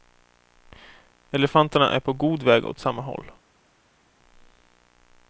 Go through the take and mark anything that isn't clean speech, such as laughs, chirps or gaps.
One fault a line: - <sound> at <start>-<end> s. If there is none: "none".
none